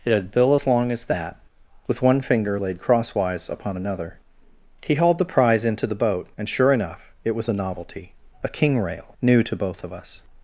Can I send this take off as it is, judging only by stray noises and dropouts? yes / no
yes